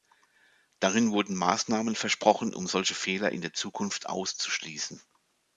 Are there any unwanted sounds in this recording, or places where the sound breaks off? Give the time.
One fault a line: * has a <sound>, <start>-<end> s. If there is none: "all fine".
all fine